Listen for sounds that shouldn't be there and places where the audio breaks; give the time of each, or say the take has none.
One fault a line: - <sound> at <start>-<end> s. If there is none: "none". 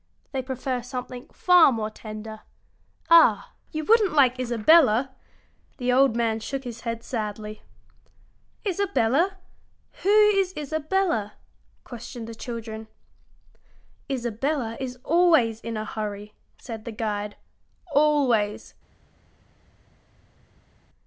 none